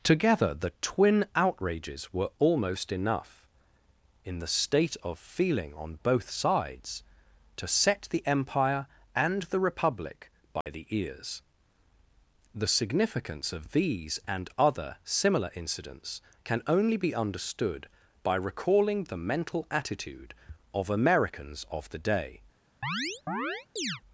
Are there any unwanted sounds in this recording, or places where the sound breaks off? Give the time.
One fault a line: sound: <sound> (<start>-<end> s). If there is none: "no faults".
sound: dropout (10.6-10.7 s)
sound: chirp (22.8-24.0 s)